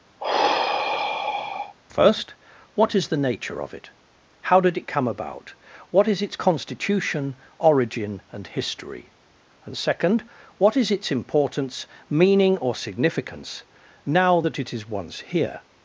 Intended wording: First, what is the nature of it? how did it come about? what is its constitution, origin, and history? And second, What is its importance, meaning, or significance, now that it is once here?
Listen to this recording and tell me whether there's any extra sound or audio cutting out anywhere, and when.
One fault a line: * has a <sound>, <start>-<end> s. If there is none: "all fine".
* has a sigh, 0.2-1.8 s